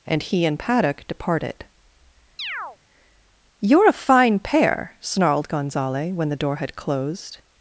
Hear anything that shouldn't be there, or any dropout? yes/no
yes